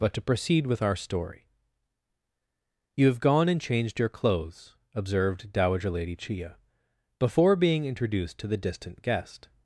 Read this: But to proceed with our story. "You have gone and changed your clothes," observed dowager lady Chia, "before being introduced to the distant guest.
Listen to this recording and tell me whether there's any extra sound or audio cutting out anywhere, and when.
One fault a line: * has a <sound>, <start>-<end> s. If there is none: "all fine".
all fine